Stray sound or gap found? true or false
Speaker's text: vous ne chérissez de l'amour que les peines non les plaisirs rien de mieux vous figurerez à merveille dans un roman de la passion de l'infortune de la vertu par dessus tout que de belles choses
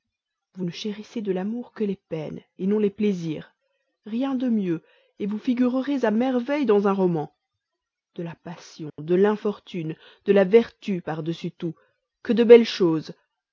true